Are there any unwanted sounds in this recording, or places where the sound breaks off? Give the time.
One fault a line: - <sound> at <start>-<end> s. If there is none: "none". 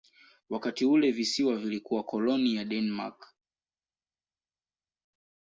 none